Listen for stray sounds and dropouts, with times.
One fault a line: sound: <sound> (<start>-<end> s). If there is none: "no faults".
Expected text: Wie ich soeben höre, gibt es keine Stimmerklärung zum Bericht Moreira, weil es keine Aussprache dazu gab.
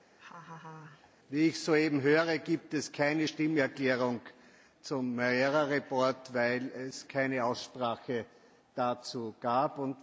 sound: laugh (0.2-1.1 s)